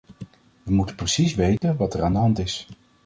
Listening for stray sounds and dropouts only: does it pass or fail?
fail